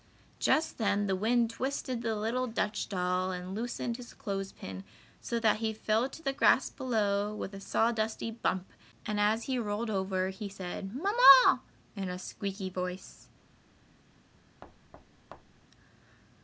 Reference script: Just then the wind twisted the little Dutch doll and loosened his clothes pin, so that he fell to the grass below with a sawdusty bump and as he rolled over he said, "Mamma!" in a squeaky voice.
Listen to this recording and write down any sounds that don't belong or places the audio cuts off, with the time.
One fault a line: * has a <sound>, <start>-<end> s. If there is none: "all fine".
* has a thud, 14.6-15.7 s